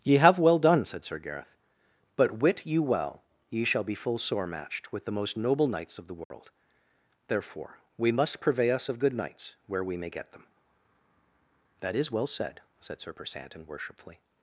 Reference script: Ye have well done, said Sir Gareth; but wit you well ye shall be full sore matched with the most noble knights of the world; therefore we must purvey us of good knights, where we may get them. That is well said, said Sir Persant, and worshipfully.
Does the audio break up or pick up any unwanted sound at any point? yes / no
yes